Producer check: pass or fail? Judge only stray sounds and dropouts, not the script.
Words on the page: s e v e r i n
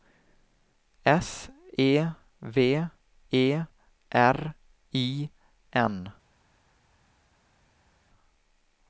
pass